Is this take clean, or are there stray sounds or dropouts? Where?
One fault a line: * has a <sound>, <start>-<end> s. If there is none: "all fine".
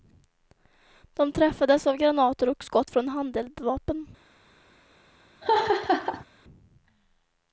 * has a laugh, 5.4-6.3 s